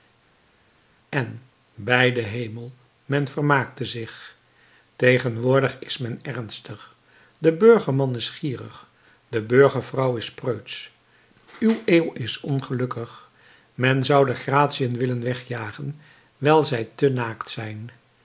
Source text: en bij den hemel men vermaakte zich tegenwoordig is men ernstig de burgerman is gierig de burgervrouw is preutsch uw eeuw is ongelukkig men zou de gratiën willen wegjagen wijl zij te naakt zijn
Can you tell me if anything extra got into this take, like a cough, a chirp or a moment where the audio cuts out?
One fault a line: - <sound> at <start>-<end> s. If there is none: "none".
none